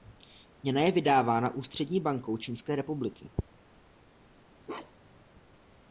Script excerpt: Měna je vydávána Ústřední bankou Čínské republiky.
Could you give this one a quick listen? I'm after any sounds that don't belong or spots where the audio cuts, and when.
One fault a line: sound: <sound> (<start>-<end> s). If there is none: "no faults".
sound: bark (4.6-5.2 s)